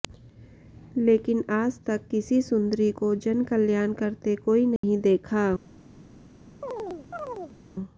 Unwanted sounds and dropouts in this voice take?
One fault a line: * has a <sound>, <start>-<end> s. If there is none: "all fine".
* has a dropout, 4.8-4.8 s
* has a chirp, 6.6-7.6 s